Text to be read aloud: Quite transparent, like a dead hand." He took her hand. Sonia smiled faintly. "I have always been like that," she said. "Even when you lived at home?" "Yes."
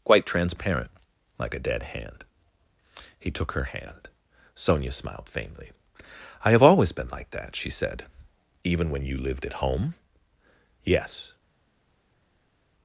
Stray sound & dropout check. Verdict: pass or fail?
pass